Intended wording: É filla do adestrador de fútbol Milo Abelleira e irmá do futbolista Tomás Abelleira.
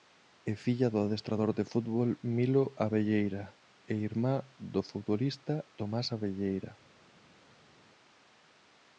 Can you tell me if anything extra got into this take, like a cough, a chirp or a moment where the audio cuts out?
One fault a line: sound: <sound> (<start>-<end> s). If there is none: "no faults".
no faults